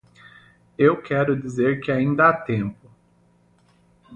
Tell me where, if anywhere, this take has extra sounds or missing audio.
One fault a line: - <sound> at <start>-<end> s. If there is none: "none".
none